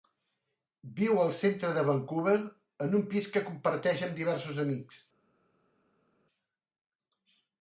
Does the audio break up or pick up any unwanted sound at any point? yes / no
no